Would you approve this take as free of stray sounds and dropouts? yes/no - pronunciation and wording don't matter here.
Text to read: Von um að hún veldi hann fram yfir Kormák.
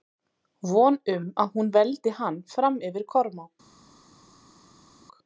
yes